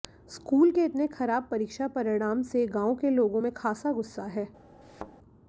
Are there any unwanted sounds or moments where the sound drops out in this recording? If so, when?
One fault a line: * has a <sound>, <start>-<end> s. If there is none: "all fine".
* has a thud, 4.8-5.1 s